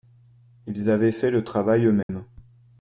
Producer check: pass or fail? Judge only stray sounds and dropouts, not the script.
fail